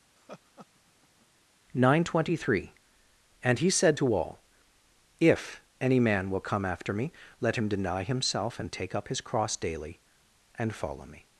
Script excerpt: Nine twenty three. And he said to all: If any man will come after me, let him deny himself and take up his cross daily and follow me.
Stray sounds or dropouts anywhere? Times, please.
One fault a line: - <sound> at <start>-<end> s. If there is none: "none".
- laugh at 0.2-1.3 s